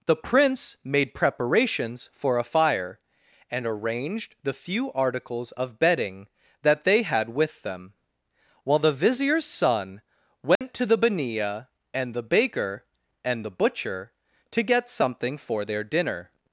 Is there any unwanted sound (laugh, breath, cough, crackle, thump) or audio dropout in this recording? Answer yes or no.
yes